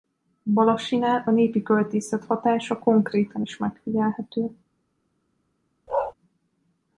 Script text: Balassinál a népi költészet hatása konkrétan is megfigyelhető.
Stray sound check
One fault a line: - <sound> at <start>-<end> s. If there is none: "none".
- bark at 5.9-6.1 s